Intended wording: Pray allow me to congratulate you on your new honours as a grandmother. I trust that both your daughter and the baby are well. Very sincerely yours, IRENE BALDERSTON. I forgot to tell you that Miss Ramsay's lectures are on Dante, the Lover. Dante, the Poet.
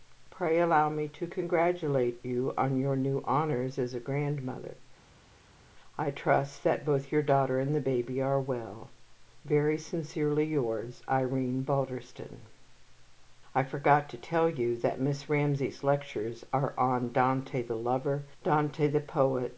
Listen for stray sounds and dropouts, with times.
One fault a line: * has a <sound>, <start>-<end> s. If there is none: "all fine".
all fine